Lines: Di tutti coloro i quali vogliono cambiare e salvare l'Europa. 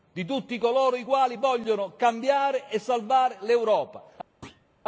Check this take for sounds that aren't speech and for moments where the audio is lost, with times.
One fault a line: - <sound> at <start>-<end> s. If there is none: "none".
- thud at 4.4-4.7 s